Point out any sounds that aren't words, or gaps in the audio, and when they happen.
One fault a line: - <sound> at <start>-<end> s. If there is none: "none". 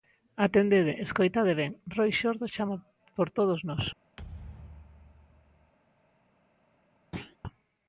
- thud at 4.2-5.7 s
- thud at 7.1-7.4 s